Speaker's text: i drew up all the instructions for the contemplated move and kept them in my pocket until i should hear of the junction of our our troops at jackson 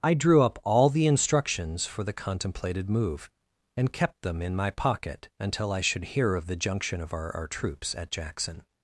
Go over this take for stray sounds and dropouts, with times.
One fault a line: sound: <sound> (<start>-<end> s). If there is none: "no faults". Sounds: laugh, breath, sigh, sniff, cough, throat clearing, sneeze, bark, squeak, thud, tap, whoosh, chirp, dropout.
no faults